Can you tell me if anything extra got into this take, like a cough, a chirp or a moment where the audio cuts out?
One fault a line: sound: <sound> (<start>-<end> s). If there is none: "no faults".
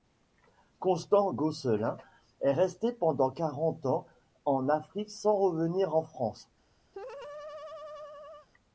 sound: laugh (6.9-8.5 s)